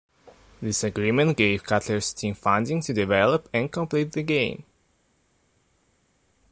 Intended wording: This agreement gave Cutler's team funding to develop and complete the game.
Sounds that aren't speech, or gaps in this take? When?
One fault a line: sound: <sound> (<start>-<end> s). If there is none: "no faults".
no faults